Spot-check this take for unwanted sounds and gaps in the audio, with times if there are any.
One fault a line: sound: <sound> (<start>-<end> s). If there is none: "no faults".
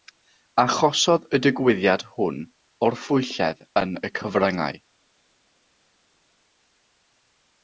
no faults